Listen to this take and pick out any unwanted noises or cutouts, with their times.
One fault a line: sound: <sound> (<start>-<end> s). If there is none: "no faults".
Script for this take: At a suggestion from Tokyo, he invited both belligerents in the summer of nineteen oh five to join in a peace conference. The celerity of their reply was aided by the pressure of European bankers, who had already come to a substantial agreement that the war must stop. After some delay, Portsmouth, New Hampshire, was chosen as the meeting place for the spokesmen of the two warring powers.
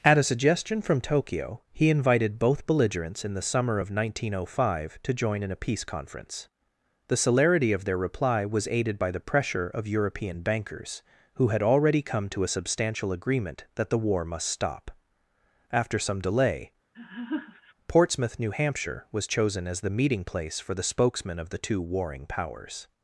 sound: laugh (16.9-17.7 s)